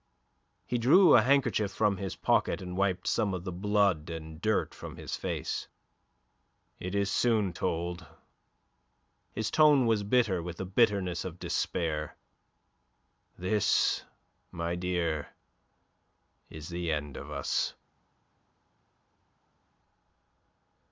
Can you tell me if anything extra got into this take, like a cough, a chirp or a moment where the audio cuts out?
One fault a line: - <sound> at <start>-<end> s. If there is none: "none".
none